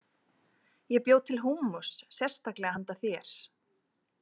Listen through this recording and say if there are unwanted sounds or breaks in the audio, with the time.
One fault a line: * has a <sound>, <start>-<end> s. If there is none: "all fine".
all fine